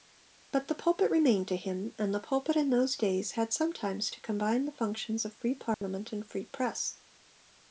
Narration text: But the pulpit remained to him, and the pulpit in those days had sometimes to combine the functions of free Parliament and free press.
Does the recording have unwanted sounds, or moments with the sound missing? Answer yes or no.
yes